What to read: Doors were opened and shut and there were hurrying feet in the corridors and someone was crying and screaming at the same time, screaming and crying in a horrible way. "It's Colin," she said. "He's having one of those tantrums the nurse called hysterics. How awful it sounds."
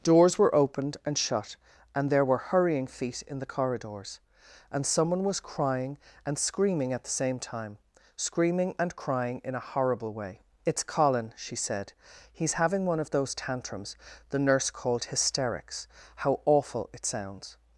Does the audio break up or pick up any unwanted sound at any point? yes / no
no